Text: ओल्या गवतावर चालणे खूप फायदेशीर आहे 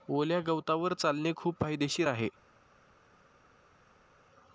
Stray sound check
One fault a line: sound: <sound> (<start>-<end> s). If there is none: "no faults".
no faults